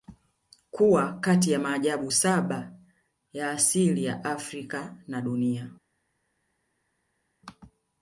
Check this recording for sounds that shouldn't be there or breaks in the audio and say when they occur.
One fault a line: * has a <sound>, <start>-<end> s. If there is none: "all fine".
all fine